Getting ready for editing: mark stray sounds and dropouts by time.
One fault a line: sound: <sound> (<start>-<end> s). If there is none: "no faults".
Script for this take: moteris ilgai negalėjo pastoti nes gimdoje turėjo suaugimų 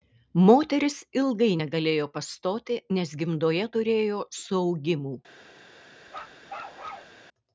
sound: bark (6.1-7.2 s)